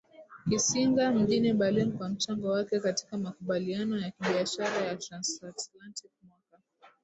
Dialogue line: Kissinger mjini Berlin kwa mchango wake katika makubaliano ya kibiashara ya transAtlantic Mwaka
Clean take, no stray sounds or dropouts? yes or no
yes